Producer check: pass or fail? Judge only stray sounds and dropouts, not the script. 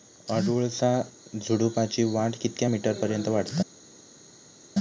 pass